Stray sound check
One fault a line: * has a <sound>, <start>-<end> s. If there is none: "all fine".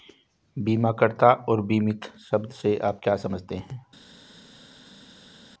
all fine